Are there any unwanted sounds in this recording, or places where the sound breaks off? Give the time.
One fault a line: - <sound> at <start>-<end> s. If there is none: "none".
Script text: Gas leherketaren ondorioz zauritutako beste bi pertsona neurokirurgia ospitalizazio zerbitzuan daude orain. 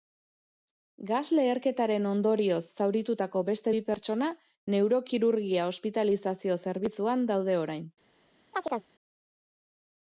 - chirp at 8.5-8.9 s